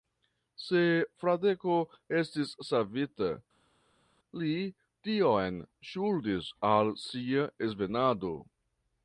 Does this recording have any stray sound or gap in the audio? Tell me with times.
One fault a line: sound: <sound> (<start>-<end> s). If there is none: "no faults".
no faults